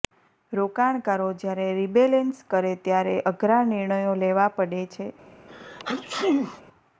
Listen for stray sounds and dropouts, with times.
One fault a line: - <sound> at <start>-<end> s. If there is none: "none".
- sneeze at 5.5-6.6 s